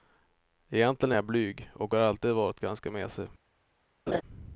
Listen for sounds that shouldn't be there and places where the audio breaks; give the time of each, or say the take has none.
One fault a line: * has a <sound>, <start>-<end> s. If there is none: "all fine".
* has a laugh, 4.1-4.2 s